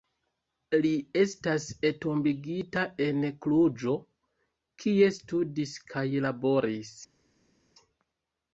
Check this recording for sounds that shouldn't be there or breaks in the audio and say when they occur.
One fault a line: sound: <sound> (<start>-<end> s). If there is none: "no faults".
no faults